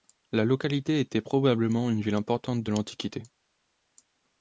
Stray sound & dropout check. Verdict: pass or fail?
pass